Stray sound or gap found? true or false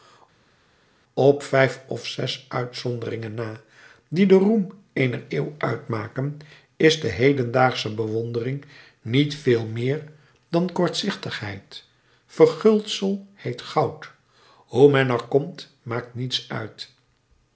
false